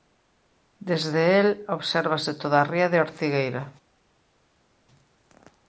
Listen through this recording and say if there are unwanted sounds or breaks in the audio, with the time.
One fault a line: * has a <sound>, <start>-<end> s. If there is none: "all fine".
all fine